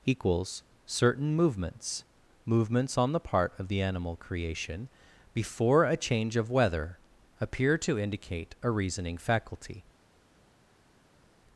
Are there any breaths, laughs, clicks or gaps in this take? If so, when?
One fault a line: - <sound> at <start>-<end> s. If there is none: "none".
none